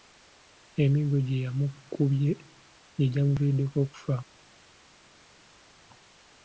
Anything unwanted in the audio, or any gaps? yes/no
no